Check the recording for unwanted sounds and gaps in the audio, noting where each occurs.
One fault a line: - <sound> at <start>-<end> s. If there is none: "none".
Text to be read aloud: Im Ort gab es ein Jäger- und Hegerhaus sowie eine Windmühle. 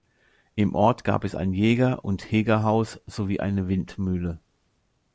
none